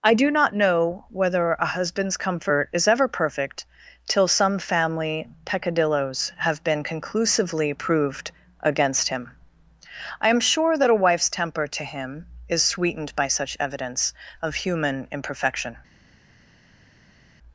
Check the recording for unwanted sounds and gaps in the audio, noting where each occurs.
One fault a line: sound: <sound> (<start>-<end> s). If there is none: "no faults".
no faults